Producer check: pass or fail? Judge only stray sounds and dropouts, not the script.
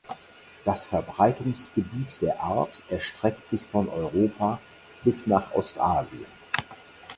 pass